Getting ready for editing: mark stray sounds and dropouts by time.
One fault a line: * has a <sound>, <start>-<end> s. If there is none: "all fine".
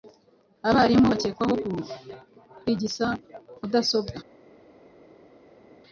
all fine